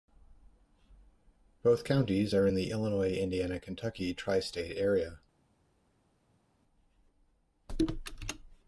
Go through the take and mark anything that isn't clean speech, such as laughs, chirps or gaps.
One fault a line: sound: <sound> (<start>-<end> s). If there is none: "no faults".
no faults